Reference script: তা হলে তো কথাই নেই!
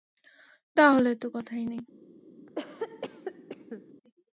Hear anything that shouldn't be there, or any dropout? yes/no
yes